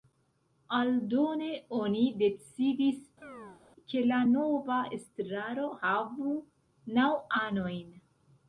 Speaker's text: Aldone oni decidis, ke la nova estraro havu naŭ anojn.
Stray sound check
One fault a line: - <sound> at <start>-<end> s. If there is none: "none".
- chirp at 3.2-3.6 s